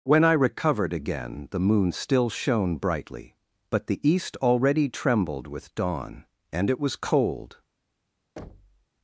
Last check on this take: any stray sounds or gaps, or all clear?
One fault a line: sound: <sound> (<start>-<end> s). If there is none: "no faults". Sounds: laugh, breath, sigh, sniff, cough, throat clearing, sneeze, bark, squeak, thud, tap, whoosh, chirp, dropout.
sound: thud (8.4-8.9 s)